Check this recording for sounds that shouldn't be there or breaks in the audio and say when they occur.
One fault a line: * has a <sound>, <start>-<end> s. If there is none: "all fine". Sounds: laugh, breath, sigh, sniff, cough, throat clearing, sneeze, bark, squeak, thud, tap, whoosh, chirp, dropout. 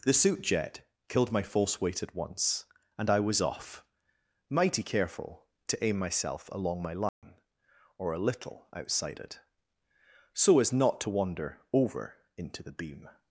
* has a dropout, 7.1-7.2 s